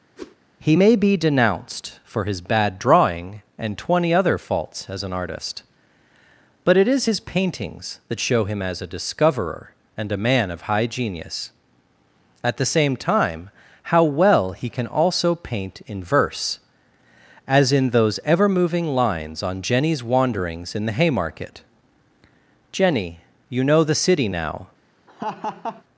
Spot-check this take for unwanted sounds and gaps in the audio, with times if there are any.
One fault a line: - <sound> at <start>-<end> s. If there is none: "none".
- whoosh at 0.2-0.4 s
- laugh at 25.1-25.8 s